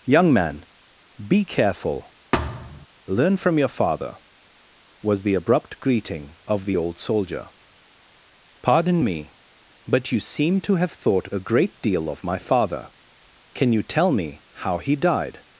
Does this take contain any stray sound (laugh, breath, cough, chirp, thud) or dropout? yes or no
yes